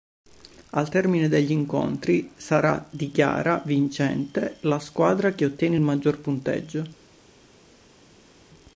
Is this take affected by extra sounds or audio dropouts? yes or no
no